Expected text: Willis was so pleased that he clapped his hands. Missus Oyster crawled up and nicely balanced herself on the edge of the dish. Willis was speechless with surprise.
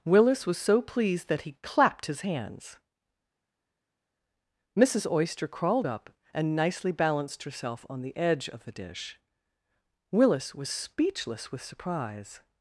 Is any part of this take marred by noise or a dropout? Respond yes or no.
no